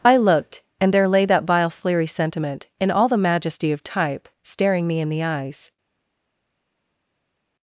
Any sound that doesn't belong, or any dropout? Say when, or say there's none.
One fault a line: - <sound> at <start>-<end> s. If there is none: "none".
none